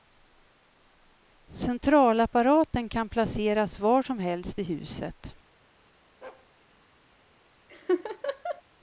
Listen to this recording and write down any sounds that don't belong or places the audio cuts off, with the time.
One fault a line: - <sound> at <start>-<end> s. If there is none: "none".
- bark at 6.2-6.5 s
- laugh at 7.7-8.6 s